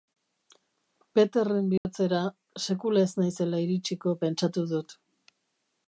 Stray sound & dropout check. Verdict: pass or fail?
fail